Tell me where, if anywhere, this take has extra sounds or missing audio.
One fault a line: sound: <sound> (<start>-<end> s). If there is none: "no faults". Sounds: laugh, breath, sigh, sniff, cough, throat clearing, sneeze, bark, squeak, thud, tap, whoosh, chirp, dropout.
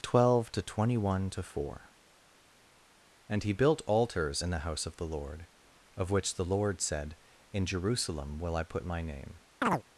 sound: chirp (9.6-9.8 s)